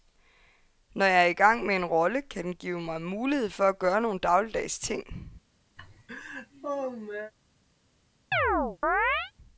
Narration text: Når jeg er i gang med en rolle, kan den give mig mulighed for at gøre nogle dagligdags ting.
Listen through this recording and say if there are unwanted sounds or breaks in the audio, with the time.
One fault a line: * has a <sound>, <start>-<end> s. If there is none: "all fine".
* has a laugh, 5.8-7.3 s
* has a chirp, 8.3-9.3 s